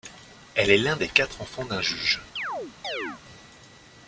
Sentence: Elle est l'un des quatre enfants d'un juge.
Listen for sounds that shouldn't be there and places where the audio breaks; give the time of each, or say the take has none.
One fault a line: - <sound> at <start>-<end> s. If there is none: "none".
- chirp at 2.4-3.2 s